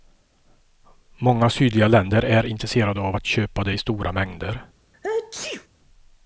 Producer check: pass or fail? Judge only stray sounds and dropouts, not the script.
fail